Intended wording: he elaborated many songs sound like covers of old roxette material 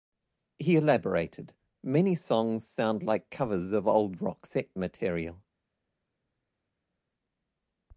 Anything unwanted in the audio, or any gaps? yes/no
no